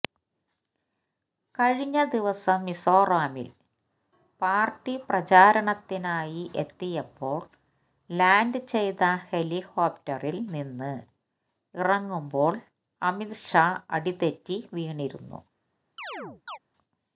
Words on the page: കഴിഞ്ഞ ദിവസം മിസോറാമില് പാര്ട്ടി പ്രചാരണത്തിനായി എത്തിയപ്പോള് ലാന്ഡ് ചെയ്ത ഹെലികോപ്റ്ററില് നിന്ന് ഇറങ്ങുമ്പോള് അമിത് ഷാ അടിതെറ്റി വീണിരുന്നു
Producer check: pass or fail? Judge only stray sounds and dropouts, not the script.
fail